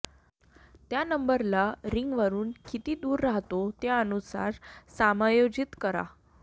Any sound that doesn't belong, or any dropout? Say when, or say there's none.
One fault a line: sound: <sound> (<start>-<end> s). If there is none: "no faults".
no faults